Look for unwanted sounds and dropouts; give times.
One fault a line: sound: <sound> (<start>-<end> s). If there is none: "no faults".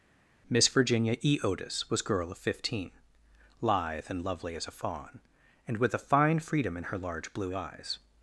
no faults